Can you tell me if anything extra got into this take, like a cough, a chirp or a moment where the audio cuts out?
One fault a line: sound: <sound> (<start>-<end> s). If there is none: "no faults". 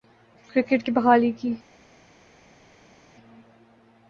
no faults